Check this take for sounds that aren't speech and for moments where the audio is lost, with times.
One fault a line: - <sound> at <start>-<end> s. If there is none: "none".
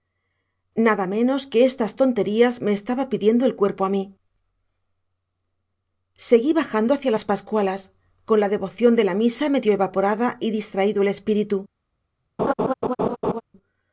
- laugh at 12.4-13.4 s